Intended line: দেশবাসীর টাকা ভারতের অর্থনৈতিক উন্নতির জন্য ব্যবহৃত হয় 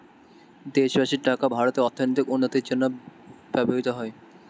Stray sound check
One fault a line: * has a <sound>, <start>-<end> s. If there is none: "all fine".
all fine